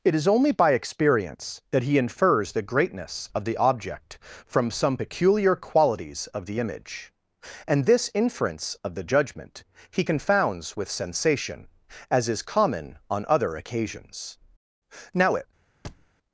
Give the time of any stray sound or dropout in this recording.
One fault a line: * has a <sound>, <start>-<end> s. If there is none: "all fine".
* has a thud, 15.8-16.1 s